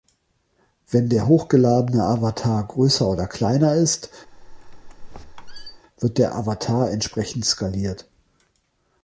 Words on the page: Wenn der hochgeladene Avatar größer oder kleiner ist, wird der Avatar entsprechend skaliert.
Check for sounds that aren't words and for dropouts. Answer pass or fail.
fail